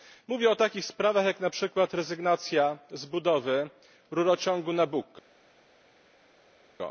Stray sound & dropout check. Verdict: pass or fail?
pass